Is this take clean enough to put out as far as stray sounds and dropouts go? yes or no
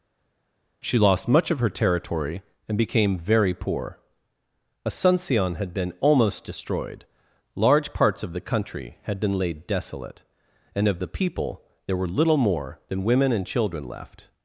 yes